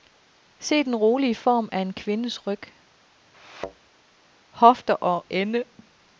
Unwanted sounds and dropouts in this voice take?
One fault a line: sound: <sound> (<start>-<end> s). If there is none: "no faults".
sound: thud (3.3-3.8 s)